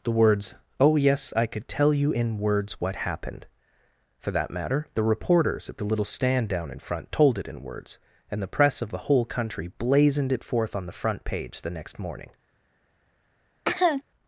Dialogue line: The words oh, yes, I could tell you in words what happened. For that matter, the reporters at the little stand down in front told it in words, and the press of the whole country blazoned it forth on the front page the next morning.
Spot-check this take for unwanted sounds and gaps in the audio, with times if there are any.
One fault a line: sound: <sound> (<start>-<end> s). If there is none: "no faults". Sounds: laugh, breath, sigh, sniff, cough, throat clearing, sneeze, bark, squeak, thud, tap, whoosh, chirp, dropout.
sound: cough (13.7-14.0 s)